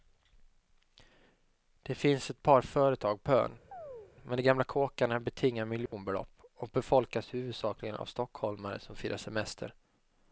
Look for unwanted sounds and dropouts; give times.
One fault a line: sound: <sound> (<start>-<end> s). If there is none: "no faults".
sound: chirp (3.7-4.1 s)
sound: dropout (5.9-5.9 s)